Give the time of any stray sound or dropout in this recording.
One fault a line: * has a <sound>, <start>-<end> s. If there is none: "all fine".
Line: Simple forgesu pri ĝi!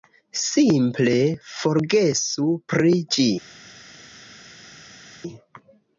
all fine